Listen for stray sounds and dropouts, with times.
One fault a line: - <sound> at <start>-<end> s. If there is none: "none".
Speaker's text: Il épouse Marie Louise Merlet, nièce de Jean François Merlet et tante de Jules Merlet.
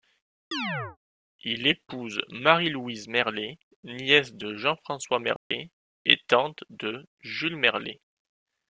- chirp at 0.5-1.0 s
- dropout at 5.4-5.5 s